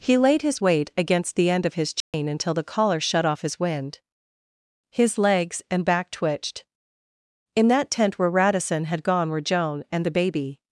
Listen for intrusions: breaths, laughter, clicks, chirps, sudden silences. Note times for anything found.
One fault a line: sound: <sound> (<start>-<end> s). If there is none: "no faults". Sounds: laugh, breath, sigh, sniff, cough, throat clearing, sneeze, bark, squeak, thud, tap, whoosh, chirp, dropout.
sound: dropout (2.0-2.1 s)